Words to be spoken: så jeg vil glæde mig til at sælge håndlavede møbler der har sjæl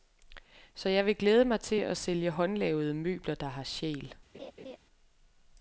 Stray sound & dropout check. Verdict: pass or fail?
fail